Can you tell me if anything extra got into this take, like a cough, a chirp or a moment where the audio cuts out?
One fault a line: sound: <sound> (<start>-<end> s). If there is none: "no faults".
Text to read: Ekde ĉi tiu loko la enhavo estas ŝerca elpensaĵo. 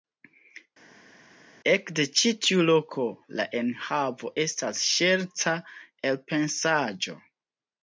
no faults